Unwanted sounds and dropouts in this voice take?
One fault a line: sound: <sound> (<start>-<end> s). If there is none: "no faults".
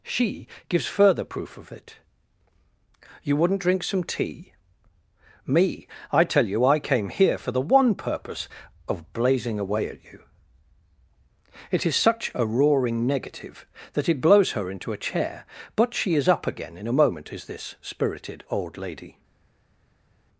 no faults